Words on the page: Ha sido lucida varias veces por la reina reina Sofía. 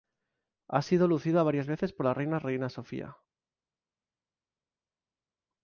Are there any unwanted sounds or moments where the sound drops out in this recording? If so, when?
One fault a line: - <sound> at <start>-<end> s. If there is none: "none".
none